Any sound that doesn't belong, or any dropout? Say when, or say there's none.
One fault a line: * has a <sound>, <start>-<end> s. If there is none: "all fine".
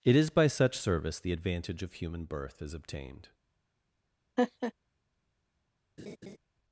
* has a laugh, 4.4-4.7 s
* has a laugh, 6.0-6.4 s